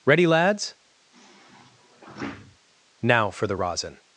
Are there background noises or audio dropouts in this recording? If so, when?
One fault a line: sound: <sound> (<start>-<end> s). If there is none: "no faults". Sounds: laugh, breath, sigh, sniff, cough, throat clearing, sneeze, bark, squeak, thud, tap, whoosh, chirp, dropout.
sound: sigh (1.1-2.6 s)